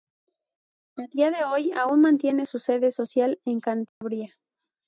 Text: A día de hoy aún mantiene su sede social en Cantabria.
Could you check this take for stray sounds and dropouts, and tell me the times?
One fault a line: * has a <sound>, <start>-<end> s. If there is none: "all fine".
* has a dropout, 3.9-4.0 s